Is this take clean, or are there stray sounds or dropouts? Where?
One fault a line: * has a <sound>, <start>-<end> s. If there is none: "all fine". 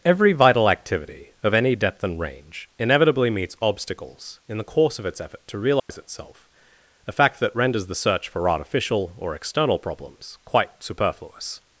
* has a dropout, 5.8-5.9 s